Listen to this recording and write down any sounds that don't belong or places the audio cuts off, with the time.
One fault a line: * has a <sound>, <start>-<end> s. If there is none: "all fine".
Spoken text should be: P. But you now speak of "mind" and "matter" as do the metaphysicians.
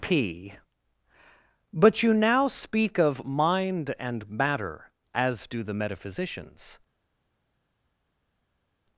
all fine